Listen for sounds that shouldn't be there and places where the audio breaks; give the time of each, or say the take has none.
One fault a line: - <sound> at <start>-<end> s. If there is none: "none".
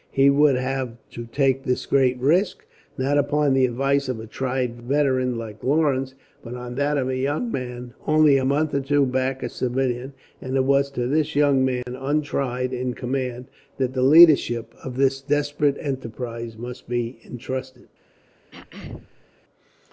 - dropout at 11.8-11.9 s
- throat clearing at 18.5-19.3 s